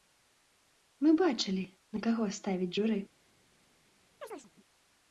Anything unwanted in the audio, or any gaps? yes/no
yes